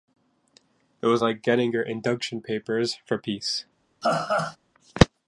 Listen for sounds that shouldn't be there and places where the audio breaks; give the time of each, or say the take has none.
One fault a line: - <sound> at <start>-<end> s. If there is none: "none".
- laugh at 4.0-4.6 s